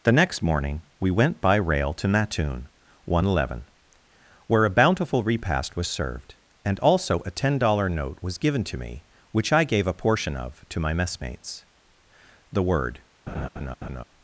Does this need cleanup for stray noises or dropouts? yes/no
yes